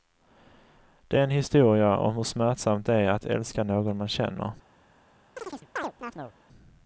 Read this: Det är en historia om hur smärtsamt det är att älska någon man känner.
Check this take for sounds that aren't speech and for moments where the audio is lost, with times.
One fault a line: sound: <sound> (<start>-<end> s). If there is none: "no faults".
sound: chirp (5.4-6.3 s)